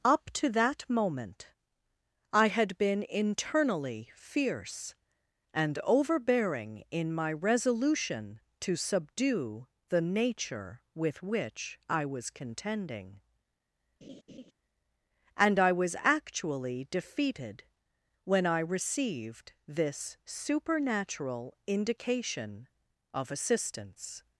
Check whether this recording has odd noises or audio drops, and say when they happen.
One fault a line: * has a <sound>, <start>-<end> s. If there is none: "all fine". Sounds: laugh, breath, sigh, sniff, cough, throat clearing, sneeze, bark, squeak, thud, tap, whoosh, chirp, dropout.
* has a laugh, 14.0-14.5 s